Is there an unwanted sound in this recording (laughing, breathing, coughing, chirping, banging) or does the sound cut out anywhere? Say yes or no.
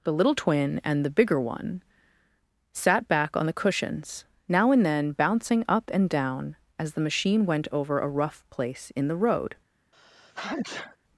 yes